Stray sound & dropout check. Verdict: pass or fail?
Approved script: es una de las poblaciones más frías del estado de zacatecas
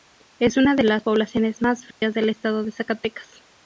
fail